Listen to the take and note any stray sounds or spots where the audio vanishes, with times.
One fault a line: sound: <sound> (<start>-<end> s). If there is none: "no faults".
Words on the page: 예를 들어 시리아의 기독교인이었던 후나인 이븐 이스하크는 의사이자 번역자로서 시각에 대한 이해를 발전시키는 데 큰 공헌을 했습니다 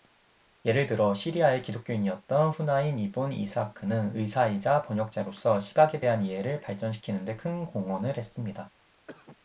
sound: cough (9.1-9.4 s)